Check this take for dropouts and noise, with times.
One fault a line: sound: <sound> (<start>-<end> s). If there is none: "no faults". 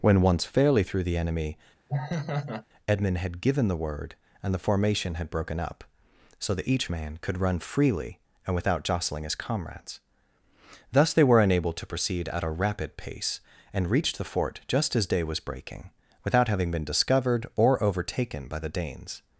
sound: laugh (1.9-2.6 s)